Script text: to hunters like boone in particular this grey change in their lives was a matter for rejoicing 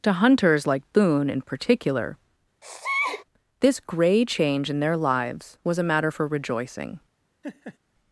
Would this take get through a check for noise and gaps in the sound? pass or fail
fail